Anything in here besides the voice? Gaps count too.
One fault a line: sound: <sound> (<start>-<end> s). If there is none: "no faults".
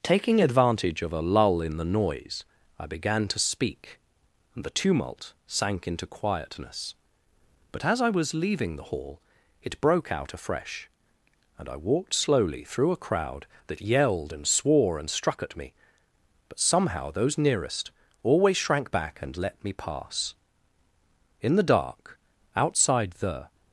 no faults